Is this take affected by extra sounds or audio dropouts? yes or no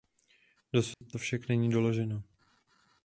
yes